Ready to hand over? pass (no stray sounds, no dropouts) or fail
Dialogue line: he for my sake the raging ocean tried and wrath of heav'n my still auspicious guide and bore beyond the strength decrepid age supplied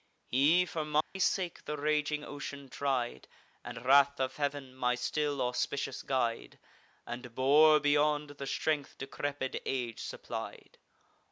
fail